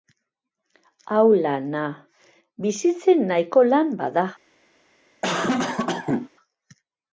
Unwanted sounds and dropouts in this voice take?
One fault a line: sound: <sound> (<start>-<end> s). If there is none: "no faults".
sound: cough (5.2-6.3 s)